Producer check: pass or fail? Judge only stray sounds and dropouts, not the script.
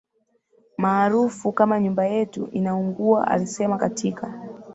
pass